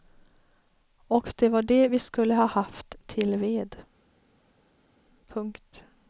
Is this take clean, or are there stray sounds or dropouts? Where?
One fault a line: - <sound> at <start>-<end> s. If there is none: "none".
none